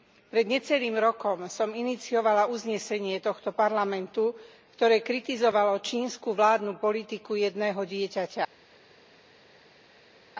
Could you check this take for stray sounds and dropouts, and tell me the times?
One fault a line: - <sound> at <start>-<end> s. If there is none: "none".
none